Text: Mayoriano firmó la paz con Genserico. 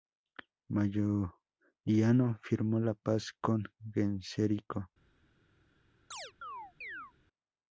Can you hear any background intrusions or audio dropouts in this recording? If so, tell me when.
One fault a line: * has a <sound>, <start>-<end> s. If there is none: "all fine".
* has a chirp, 6.1-7.1 s